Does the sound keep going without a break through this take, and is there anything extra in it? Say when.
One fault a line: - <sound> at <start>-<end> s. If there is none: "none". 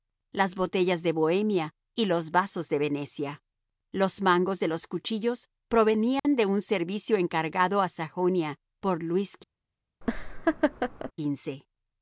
- dropout at 6.2-6.2 s
- laugh at 10.0-11.1 s